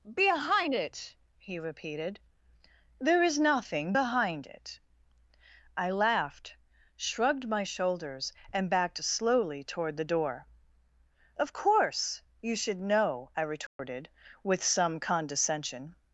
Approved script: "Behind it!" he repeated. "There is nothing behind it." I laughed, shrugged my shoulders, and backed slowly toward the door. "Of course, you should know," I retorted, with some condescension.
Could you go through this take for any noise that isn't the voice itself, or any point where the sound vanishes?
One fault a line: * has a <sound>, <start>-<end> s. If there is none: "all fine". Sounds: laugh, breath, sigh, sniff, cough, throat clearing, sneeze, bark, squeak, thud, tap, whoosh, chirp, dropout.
* has a dropout, 13.7-13.8 s